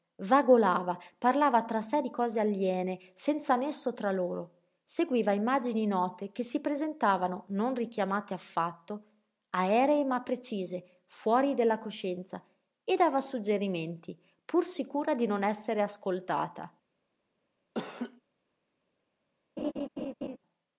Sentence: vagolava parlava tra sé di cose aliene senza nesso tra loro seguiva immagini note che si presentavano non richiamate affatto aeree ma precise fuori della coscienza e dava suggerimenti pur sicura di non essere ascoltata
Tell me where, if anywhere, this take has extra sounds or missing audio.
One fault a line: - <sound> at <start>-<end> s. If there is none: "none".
- laugh at 17.7-18.2 s
- laugh at 19.6-20.4 s